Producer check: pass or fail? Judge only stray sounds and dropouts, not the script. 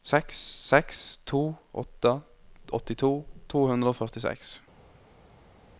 pass